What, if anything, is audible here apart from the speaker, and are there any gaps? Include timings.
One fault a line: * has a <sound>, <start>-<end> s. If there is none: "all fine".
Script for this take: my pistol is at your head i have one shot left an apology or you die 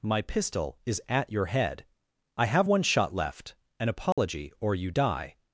* has a dropout, 4.1-4.2 s